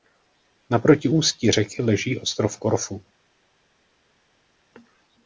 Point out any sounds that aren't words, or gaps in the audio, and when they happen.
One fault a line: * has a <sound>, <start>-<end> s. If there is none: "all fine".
all fine